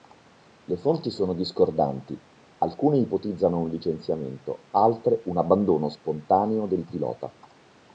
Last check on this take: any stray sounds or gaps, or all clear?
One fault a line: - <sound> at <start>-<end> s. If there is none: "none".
none